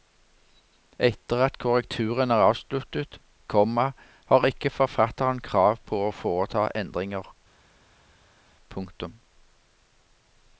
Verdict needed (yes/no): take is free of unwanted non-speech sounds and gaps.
yes